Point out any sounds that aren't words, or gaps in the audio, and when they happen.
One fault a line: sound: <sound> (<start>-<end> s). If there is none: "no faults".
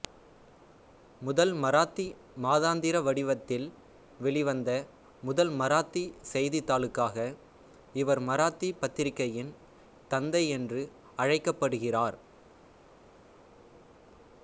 no faults